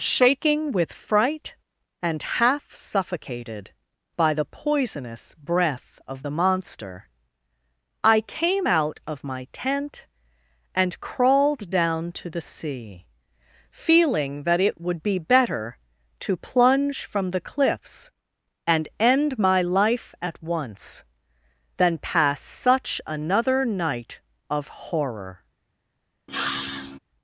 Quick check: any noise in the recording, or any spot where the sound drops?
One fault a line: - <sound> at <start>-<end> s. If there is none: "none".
- sniff at 26.3-27.0 s